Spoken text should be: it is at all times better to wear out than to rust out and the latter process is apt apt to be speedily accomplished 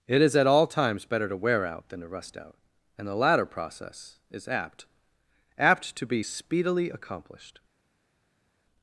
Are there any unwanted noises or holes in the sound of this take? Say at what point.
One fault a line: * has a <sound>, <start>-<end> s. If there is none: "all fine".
all fine